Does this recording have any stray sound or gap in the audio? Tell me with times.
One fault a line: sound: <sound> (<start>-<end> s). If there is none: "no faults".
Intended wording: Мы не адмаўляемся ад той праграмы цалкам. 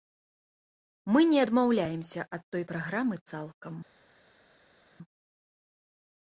no faults